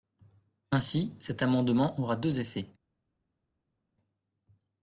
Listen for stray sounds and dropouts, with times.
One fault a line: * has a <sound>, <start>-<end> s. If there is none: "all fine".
all fine